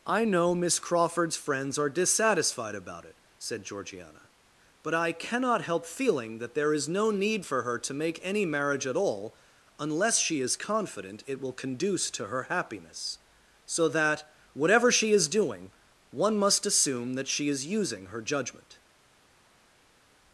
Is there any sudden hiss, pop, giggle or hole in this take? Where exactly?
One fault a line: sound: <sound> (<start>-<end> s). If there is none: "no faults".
no faults